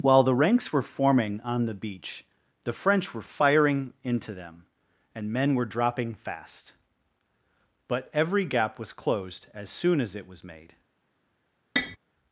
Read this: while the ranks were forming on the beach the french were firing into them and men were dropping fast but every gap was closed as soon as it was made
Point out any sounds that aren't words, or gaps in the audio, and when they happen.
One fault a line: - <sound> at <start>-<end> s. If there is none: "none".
- tap at 11.8-12.0 s